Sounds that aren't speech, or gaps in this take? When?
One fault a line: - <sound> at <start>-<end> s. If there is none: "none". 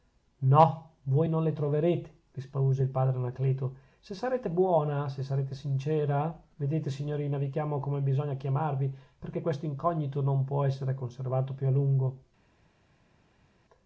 none